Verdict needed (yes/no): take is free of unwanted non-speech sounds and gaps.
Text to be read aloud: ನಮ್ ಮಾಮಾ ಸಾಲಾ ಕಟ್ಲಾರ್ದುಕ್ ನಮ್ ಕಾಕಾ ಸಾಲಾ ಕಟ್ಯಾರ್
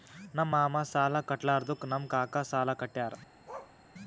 no